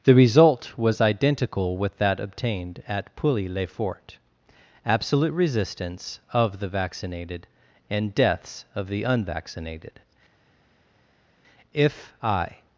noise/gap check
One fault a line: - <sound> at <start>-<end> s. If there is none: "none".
none